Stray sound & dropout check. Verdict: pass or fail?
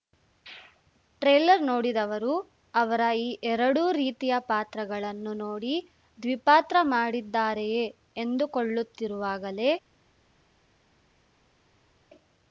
pass